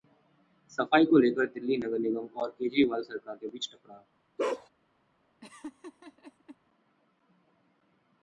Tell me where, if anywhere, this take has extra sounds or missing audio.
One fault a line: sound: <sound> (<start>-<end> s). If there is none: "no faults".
sound: bark (4.4-4.7 s)
sound: laugh (5.4-6.6 s)